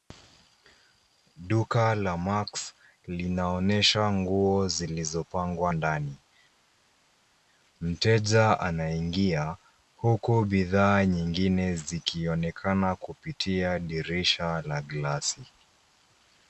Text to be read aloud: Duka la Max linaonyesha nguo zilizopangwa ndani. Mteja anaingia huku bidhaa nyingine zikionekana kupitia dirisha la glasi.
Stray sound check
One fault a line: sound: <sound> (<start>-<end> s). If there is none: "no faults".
no faults